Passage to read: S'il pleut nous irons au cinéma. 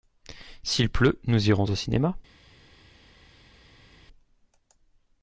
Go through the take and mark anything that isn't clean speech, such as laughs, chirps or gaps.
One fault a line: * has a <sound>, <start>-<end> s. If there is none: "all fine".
all fine